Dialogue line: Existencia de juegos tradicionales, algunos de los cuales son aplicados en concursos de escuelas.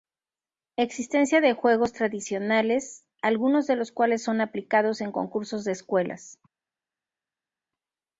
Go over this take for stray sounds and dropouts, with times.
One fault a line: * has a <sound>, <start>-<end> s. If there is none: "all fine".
all fine